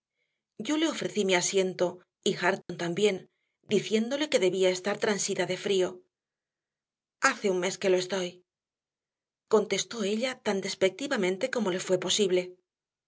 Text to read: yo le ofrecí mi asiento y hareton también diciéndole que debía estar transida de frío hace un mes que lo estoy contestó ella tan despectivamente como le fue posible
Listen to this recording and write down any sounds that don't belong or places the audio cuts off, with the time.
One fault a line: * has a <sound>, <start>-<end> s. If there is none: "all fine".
* has a dropout, 2.6-2.7 s